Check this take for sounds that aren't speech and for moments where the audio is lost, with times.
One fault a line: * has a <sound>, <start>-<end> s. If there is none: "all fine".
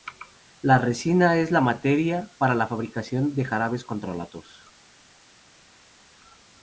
all fine